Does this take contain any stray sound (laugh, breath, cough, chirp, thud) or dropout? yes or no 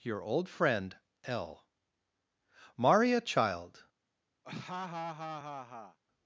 yes